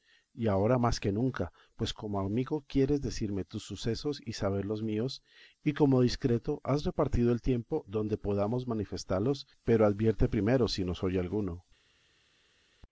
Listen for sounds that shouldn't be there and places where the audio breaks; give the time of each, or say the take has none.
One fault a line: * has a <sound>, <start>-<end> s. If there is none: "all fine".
all fine